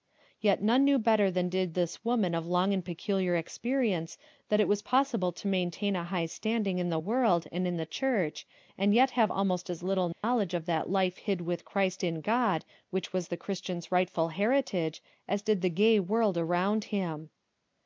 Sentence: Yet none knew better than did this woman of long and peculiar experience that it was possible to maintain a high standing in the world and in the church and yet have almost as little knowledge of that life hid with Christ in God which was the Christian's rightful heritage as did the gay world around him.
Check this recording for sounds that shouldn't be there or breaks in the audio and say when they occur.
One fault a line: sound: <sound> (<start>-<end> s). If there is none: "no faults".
sound: dropout (10.1-10.2 s)